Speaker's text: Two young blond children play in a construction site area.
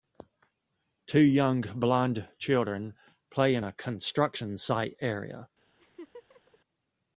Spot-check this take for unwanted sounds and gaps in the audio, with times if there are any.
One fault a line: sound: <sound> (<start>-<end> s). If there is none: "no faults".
sound: laugh (5.8-6.6 s)